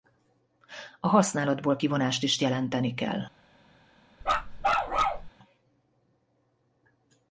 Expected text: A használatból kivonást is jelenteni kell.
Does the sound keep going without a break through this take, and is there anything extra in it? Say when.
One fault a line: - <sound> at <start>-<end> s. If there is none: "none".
- bark at 4.2-5.3 s